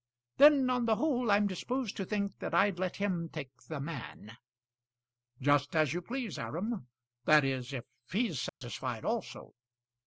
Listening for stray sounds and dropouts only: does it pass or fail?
fail